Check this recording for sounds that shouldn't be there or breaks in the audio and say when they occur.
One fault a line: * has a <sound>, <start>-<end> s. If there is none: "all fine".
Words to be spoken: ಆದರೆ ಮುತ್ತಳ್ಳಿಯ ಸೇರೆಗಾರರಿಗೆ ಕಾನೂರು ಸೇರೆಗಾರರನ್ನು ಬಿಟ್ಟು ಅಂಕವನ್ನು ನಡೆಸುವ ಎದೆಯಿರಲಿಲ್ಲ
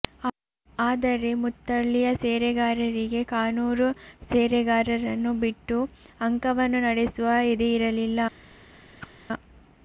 * has a whoosh, 9.0-9.1 s